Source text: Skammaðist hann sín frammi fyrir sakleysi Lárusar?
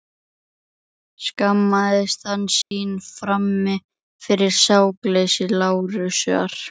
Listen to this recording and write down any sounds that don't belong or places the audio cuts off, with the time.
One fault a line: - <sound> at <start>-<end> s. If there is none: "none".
- dropout at 2.6-2.7 s